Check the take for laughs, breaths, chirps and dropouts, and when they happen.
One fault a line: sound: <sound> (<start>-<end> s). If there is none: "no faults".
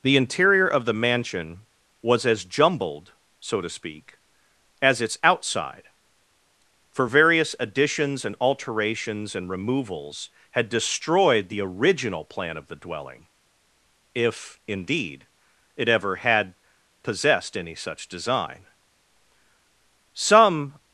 no faults